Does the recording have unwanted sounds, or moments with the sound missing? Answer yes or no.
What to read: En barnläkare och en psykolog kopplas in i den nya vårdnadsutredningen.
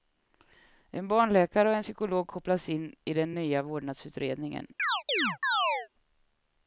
yes